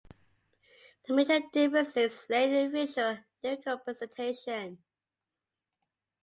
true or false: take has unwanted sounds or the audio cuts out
false